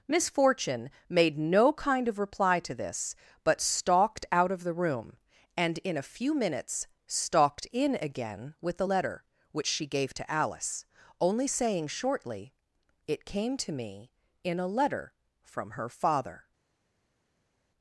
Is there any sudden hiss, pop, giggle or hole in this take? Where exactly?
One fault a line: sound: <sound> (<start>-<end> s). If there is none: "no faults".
no faults